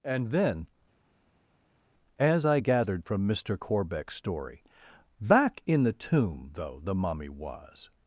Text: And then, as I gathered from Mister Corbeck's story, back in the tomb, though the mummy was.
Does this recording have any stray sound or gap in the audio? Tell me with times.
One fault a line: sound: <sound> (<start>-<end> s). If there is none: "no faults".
no faults